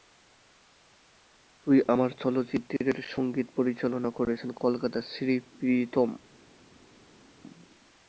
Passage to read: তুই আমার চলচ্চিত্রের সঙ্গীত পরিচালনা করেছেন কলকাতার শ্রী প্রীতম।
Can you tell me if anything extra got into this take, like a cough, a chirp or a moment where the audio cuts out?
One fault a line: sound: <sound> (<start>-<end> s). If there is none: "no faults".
no faults